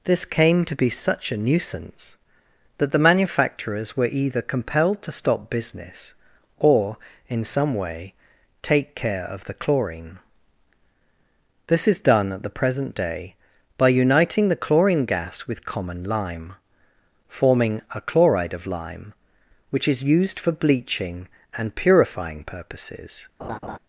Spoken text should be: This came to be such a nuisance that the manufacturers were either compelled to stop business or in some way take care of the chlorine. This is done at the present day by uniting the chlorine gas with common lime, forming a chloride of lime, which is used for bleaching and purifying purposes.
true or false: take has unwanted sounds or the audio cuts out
true